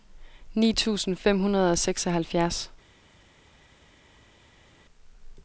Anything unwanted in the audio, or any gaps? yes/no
no